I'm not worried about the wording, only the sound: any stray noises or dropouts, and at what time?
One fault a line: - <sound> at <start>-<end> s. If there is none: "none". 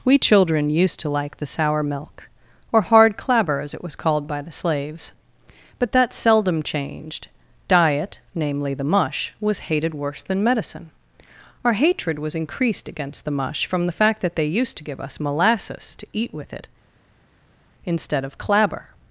none